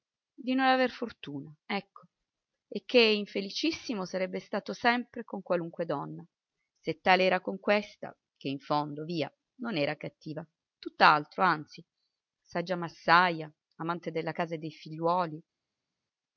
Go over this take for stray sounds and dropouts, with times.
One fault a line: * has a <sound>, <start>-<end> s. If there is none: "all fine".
all fine